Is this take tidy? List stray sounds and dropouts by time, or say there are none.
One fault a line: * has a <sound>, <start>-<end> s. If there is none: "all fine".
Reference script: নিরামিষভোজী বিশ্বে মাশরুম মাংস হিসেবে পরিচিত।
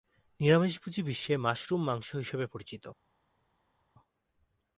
all fine